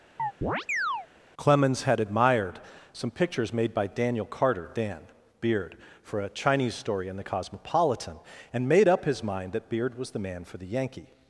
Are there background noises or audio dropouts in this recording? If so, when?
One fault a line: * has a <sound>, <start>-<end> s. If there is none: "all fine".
* has a chirp, 0.2-1.1 s